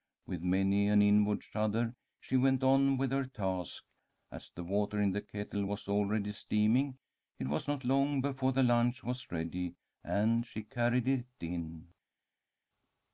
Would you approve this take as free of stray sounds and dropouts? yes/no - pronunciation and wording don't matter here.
yes